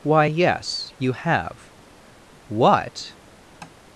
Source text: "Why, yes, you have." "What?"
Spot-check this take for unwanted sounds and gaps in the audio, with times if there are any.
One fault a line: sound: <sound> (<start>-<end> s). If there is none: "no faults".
sound: tap (3.6-3.8 s)